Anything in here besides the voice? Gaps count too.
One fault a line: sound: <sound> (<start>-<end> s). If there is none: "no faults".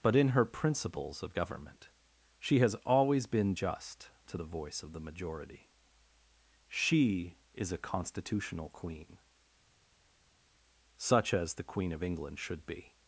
no faults